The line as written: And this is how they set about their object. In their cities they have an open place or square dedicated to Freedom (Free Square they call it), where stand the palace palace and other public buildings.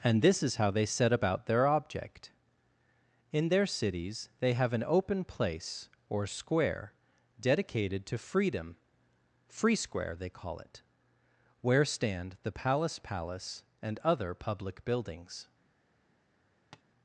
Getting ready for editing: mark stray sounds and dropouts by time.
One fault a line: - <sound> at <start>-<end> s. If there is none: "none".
- tap at 16.7-16.8 s